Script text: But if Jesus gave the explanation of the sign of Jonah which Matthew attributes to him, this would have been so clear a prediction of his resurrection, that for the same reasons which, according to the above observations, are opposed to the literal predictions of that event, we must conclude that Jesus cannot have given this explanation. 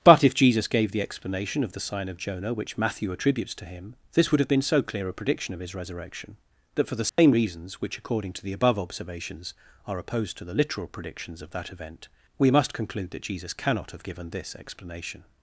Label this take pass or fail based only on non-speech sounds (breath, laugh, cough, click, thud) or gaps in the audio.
fail